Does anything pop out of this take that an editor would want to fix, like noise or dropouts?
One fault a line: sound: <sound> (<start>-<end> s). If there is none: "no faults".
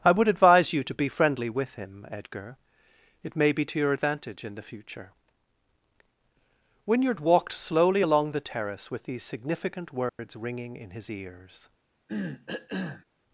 sound: dropout (10.1-10.2 s)
sound: cough (12.1-13.0 s)